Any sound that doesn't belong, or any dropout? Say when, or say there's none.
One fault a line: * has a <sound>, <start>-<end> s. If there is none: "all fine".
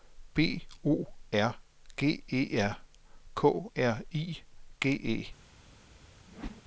* has a whoosh, 6.3-6.6 s